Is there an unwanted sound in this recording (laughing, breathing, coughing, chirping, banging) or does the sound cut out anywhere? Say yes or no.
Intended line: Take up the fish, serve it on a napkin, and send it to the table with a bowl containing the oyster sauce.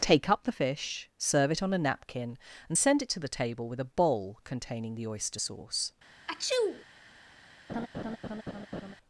yes